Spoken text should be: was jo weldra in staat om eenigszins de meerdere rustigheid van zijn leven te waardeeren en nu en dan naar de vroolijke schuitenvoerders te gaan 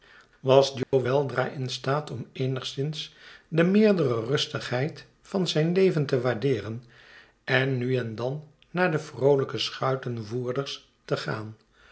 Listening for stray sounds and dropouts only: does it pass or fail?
fail